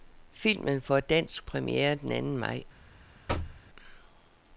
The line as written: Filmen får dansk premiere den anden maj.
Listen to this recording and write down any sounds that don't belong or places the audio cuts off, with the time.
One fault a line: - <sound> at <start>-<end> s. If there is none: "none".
- thud at 3.3-3.6 s